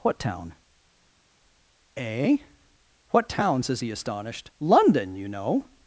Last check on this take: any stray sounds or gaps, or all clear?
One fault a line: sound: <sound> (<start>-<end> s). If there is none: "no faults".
no faults